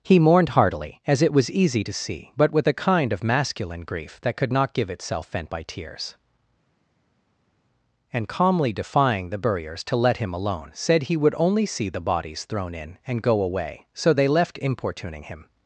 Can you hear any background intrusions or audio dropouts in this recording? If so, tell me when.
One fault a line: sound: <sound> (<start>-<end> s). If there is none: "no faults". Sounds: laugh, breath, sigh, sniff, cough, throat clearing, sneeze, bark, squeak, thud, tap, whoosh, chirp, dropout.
no faults